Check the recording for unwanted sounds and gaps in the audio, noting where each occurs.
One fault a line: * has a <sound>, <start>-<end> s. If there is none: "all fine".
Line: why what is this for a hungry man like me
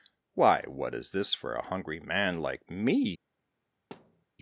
* has a thud, 3.9-4.3 s